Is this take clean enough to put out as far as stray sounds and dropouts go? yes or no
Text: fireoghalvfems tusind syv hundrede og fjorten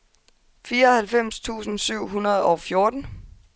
yes